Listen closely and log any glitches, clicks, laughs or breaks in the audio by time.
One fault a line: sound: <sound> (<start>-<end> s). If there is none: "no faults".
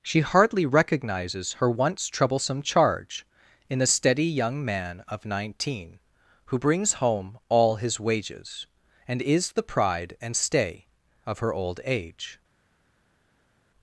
no faults